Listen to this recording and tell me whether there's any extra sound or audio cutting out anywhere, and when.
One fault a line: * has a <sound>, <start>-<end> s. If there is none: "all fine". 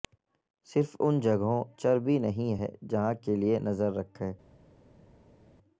all fine